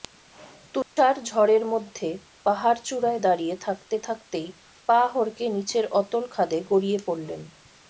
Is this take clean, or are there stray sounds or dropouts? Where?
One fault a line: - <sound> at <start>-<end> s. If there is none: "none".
- dropout at 0.8-1.0 s